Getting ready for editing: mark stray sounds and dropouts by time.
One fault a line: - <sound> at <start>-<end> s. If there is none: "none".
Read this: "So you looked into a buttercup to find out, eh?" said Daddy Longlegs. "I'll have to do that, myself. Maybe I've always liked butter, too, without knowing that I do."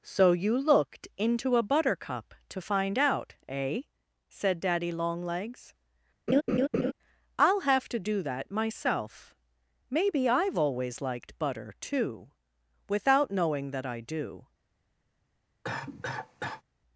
- laugh at 6.3-6.9 s
- cough at 15.6-16.6 s